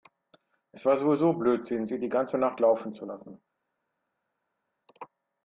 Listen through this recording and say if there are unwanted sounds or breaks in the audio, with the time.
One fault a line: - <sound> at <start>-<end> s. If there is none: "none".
none